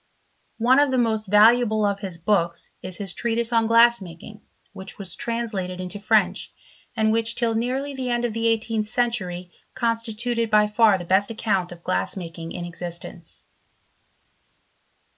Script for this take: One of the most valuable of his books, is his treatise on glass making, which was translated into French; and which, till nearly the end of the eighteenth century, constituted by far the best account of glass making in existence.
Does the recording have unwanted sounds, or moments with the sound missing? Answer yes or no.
no